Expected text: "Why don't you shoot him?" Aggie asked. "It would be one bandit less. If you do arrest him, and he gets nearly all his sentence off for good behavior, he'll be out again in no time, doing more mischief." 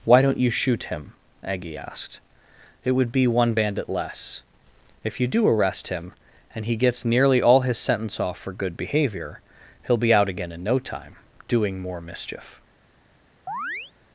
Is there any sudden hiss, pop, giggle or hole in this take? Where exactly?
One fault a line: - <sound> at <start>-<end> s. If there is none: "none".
- chirp at 13.5-13.9 s